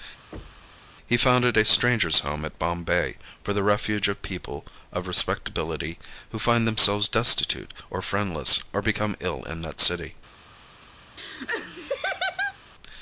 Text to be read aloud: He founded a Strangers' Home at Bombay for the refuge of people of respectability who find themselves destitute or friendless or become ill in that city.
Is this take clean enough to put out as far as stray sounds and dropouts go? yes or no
no